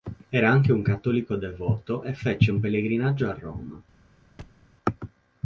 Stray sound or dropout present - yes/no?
yes